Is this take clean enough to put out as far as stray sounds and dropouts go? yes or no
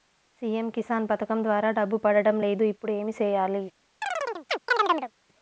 no